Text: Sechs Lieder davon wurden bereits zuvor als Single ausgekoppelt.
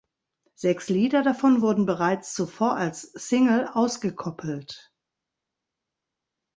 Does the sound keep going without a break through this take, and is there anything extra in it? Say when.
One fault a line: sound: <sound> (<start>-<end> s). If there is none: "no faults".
no faults